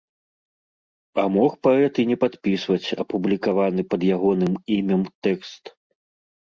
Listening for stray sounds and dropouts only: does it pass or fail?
pass